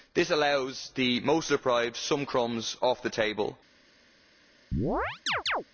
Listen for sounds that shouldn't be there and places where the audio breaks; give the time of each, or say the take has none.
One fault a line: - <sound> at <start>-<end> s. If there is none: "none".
- chirp at 4.7-5.6 s